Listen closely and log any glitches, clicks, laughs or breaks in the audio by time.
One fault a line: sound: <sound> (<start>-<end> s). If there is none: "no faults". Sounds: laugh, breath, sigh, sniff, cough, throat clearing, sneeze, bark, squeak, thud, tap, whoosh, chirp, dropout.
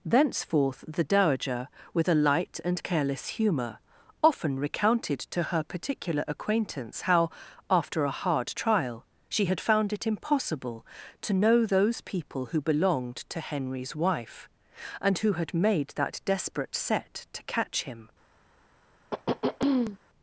sound: throat clearing (19.1-20.0 s)